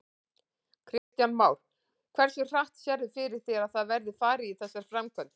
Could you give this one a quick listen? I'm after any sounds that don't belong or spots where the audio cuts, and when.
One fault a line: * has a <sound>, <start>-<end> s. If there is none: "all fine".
* has a dropout, 1.0-1.1 s